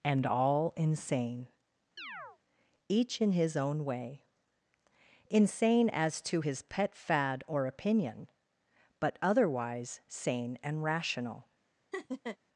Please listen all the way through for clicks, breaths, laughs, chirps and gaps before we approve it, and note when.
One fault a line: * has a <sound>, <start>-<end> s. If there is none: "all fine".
* has a chirp, 2.0-2.4 s
* has a laugh, 11.9-12.4 s